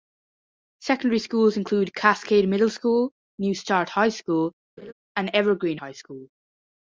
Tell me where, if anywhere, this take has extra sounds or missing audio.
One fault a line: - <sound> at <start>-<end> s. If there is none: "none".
- laugh at 4.8-4.9 s